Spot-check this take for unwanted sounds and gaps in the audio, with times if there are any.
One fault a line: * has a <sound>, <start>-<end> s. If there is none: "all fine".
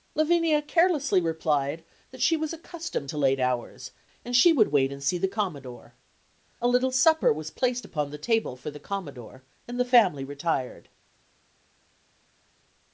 all fine